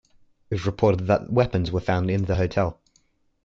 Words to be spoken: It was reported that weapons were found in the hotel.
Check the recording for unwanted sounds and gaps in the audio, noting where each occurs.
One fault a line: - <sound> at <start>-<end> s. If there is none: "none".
none